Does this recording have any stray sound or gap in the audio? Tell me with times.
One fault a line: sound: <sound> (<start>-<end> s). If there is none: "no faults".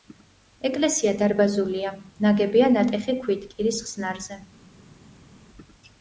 no faults